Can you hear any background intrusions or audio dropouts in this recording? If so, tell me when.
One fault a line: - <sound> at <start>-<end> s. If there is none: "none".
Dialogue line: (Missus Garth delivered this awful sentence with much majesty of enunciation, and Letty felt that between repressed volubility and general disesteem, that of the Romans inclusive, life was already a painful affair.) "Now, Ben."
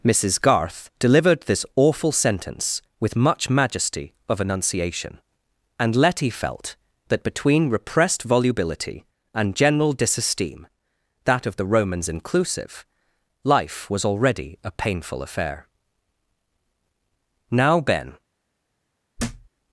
- thud at 19.2-19.5 s